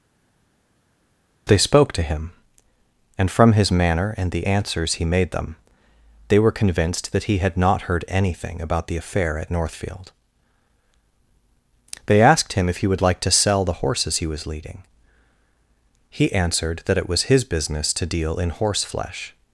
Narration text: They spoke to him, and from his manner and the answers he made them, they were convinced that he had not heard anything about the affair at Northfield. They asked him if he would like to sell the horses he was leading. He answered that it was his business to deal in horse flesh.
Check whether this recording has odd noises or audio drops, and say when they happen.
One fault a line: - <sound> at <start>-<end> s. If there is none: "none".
none